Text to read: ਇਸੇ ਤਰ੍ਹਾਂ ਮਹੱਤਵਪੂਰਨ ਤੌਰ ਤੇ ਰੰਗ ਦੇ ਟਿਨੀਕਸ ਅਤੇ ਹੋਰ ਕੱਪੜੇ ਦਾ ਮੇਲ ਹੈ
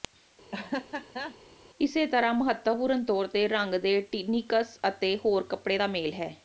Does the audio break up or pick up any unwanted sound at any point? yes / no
yes